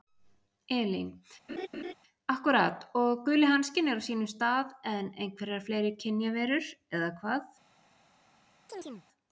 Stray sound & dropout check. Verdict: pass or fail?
fail